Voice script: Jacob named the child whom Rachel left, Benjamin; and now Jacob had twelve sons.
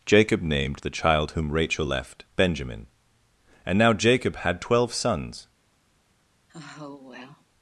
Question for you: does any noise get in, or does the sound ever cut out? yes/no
yes